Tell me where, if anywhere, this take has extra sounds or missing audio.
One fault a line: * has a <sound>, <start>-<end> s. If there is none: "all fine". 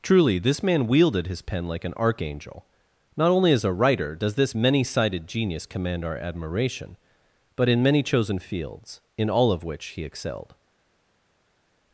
all fine